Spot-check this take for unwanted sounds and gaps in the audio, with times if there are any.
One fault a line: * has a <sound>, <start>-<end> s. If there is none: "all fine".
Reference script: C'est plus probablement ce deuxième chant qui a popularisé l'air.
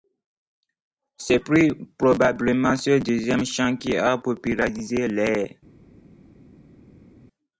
all fine